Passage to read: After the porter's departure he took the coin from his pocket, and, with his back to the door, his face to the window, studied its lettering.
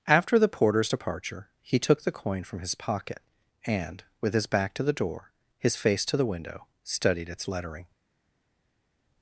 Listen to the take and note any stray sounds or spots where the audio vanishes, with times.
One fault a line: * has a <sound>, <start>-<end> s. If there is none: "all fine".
all fine